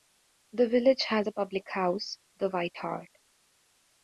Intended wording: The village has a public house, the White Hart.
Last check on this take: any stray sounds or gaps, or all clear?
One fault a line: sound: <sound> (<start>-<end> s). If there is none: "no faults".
no faults